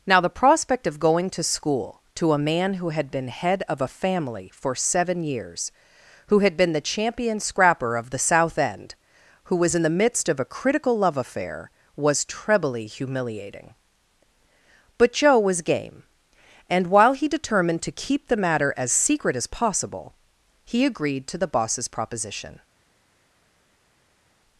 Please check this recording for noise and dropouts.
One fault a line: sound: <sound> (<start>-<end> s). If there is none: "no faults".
no faults